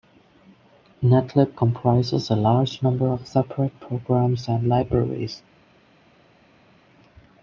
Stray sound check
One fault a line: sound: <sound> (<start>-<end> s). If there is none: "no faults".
no faults